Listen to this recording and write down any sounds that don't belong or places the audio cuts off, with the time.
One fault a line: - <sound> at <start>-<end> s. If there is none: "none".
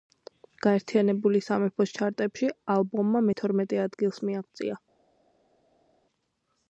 none